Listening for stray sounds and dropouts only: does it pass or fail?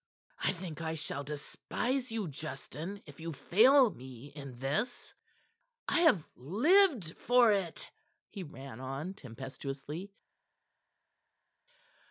pass